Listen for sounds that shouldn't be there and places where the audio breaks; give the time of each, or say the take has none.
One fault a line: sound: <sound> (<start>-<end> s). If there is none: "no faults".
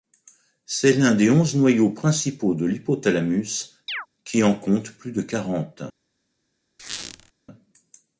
sound: chirp (3.9-4.1 s)
sound: squeak (6.8-7.3 s)